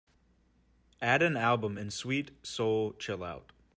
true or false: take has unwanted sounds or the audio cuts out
false